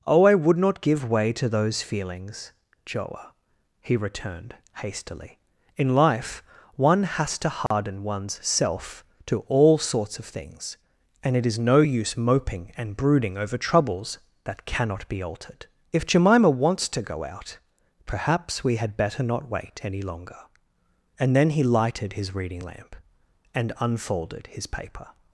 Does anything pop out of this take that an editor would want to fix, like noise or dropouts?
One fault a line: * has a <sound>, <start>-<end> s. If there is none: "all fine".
* has a dropout, 7.7-7.7 s